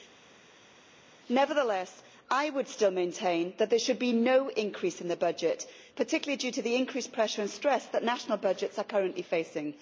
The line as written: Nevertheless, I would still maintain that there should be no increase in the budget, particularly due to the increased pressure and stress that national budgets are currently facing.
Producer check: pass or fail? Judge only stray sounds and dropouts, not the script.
pass